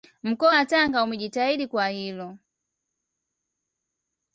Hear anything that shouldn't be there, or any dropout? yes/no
no